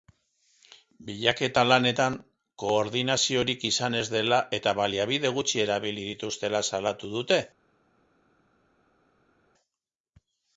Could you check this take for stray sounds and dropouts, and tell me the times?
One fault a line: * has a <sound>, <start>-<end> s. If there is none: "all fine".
all fine